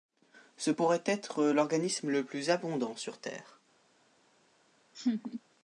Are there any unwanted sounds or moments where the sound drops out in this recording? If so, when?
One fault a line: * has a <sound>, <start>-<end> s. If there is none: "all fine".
* has a laugh, 4.9-5.4 s